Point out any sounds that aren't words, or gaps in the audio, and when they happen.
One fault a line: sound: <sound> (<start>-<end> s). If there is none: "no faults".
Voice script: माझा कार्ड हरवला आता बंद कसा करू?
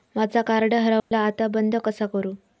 sound: dropout (1.0-1.1 s)